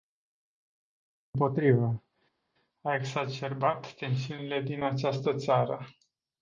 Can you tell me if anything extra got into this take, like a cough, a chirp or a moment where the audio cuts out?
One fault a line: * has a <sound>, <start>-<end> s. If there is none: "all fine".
all fine